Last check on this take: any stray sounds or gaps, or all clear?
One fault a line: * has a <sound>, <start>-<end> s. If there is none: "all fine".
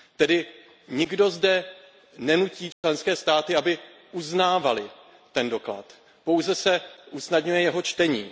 * has a dropout, 2.7-2.8 s